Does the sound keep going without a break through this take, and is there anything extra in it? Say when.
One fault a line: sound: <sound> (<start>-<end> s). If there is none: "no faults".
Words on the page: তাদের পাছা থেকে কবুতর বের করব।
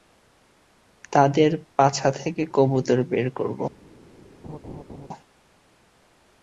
sound: laugh (4.4-5.1 s)